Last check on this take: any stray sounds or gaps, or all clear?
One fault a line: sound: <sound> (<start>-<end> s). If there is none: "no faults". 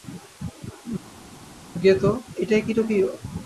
no faults